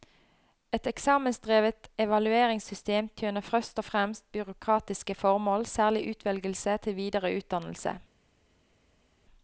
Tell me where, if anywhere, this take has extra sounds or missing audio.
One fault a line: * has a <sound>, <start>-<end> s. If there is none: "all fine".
all fine